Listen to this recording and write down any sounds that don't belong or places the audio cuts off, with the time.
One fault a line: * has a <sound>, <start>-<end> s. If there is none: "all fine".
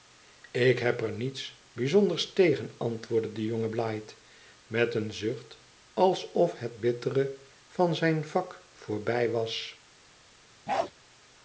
* has a bark, 10.7-10.9 s